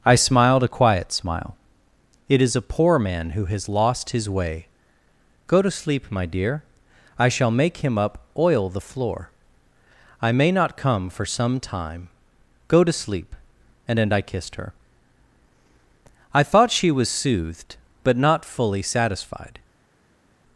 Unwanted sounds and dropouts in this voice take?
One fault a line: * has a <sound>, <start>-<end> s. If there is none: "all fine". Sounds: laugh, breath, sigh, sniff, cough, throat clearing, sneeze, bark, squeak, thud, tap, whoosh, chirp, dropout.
all fine